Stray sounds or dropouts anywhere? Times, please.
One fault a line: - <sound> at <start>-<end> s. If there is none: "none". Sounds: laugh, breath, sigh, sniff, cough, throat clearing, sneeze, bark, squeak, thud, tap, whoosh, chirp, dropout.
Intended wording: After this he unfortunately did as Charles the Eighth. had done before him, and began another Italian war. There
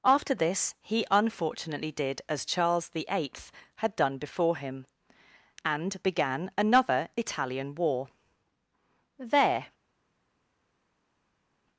none